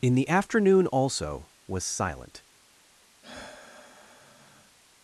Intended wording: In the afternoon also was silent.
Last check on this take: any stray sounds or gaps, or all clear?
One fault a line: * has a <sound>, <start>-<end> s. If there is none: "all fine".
* has a sigh, 3.2-4.8 s